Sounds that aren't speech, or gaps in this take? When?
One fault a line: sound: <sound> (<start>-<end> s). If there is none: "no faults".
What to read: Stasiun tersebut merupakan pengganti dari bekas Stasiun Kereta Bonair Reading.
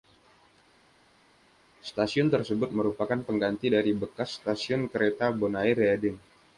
no faults